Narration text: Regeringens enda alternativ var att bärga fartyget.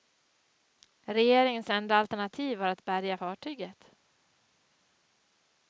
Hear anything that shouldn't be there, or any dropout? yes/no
no